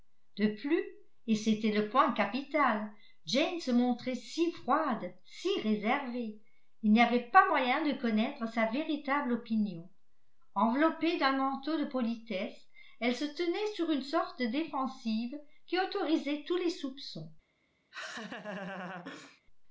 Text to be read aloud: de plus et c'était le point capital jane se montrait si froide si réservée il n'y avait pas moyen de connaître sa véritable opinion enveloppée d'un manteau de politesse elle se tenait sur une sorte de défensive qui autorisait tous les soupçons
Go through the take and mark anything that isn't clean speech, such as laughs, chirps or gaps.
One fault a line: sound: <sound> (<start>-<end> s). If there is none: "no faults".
sound: laugh (17.9-19.4 s)